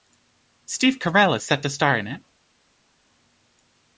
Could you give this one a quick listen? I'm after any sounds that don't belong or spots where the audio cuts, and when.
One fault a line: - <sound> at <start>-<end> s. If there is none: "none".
none